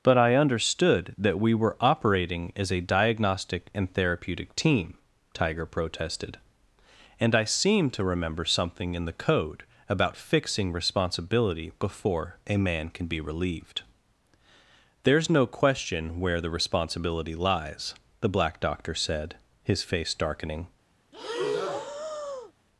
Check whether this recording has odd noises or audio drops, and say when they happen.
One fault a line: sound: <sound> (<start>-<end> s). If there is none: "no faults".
sound: breath (21.1-22.5 s)